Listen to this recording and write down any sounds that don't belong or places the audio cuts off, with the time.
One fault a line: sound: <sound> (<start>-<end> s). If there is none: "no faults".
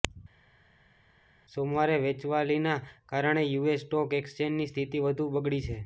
no faults